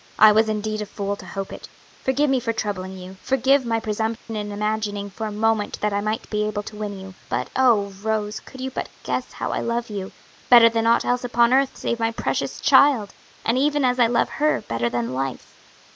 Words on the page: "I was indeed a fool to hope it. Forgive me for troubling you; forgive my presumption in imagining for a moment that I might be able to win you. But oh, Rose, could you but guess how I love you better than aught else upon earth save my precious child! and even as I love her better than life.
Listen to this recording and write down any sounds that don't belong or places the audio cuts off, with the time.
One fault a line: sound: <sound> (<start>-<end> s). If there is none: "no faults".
sound: dropout (4.2-4.3 s)